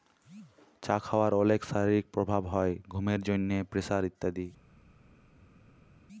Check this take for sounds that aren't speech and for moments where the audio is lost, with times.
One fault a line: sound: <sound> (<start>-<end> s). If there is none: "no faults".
no faults